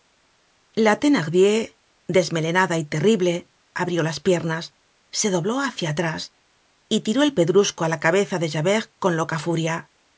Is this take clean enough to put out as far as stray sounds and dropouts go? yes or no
yes